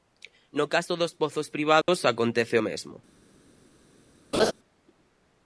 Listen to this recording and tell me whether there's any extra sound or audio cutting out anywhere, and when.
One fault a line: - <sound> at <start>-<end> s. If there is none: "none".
- dropout at 1.8-1.9 s
- laugh at 4.3-4.5 s